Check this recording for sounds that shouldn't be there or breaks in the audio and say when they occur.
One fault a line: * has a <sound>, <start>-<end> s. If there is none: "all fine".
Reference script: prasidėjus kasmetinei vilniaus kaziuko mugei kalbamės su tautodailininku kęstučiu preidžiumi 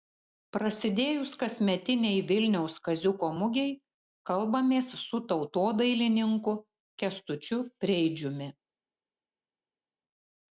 all fine